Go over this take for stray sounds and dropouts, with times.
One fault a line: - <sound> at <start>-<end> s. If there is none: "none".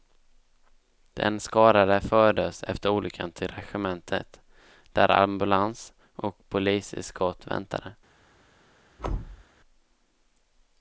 - thud at 9.0-9.4 s